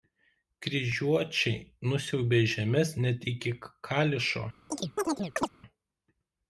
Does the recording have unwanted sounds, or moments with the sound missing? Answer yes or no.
yes